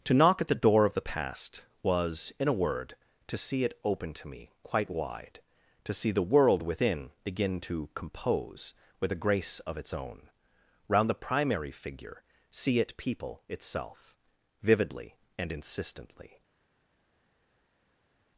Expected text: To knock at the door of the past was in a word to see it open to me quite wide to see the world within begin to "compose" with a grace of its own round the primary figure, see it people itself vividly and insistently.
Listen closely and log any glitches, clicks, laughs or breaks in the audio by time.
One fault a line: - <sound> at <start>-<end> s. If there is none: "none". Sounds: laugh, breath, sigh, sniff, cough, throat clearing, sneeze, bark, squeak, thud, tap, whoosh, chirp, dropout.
none